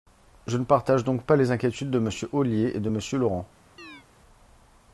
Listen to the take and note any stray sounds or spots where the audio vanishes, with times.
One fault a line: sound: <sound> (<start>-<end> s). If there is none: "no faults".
sound: chirp (3.8-4.1 s)